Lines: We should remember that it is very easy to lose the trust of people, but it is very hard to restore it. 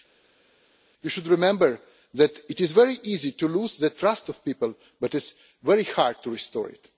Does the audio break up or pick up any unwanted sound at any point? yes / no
no